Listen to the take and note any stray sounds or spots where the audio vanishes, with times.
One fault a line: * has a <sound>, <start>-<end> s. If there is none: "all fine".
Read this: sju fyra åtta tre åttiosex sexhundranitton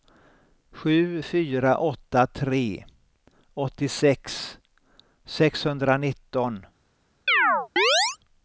* has a chirp, 7.3-8.2 s